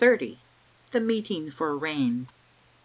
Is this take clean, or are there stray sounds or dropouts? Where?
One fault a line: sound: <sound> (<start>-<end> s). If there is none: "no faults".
no faults